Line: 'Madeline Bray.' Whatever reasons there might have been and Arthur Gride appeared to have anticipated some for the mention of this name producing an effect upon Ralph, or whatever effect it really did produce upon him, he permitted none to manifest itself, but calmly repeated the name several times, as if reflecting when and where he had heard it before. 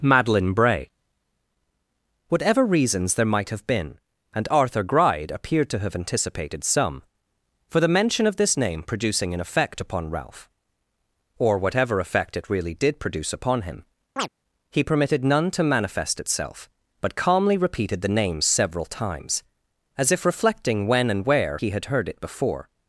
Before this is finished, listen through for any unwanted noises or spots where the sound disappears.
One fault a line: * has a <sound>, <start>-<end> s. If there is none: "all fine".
* has a chirp, 14.2-14.3 s